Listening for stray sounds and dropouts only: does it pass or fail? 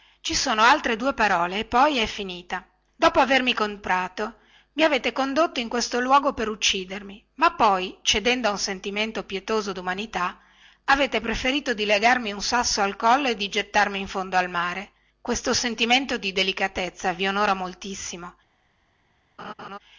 fail